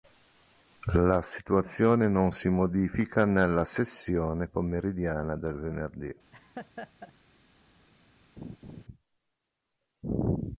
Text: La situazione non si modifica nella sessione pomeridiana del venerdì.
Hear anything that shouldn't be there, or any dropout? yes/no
yes